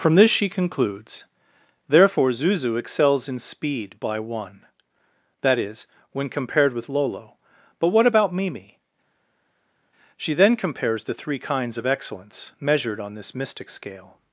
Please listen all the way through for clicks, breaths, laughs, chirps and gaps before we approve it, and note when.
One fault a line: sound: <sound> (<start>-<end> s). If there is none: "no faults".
no faults